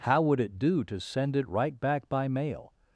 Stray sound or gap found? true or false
false